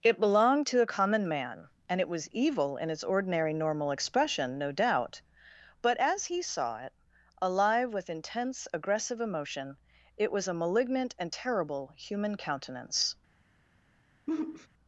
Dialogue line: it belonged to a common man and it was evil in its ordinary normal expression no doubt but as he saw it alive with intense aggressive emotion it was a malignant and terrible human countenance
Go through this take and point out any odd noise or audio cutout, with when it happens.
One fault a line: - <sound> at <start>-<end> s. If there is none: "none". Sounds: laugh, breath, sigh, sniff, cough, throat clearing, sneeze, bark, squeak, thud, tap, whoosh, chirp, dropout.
- sigh at 14.3-14.7 s